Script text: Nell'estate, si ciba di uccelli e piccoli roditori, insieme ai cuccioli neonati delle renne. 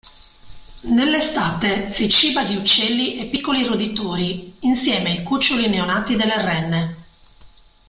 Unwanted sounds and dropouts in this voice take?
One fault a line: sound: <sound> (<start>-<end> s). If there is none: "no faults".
no faults